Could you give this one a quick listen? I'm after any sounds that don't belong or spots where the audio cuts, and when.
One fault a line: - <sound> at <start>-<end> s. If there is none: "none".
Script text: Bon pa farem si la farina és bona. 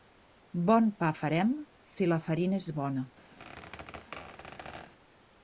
- squeak at 3.4-4.9 s